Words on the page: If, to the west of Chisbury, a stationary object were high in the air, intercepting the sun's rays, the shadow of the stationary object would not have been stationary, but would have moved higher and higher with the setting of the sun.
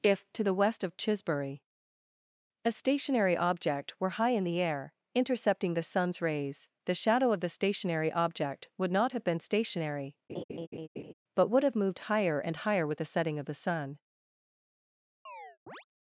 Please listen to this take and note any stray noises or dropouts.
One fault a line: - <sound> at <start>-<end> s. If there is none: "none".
- laugh at 10.3-11.1 s
- chirp at 15.3-15.9 s